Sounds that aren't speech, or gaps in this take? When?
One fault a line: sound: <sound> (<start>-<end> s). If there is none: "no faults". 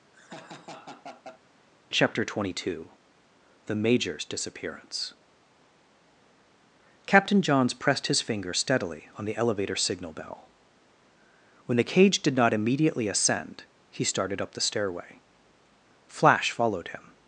sound: laugh (0.1-1.4 s)